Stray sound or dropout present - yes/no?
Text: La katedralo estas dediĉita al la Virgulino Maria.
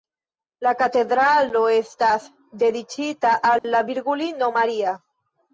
yes